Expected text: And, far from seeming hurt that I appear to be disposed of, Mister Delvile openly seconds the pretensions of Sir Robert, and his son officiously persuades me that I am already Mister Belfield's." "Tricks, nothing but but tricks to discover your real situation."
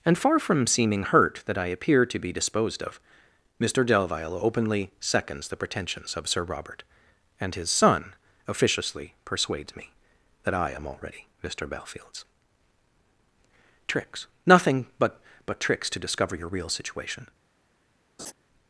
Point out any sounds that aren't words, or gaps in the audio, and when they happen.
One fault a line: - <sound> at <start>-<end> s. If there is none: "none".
- laugh at 18.2-18.3 s